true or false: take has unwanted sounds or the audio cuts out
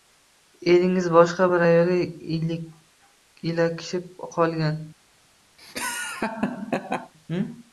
true